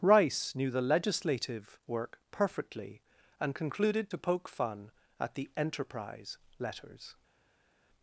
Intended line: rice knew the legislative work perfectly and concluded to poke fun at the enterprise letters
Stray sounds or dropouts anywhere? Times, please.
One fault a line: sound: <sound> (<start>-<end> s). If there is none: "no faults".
no faults